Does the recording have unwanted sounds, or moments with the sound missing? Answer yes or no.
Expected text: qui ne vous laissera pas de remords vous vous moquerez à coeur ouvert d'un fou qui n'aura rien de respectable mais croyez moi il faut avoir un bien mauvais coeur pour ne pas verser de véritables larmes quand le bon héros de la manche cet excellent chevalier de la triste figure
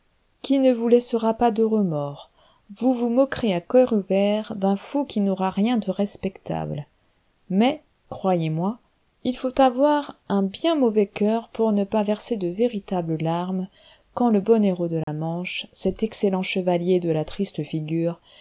yes